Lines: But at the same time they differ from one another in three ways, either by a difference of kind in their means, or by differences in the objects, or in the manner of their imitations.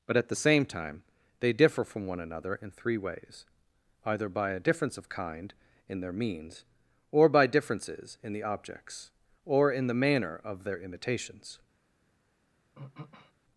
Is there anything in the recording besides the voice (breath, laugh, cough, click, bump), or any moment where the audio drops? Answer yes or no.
yes